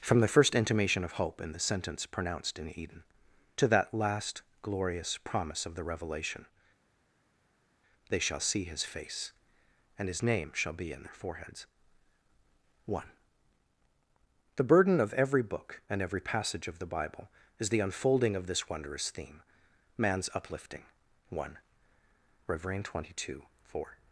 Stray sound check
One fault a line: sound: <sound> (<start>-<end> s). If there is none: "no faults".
no faults